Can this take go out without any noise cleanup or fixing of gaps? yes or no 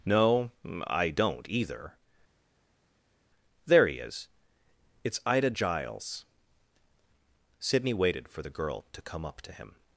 yes